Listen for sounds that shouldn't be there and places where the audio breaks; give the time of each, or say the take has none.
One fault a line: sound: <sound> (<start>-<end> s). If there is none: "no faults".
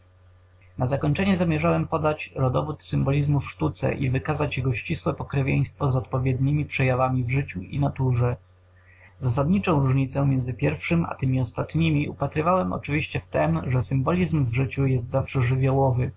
no faults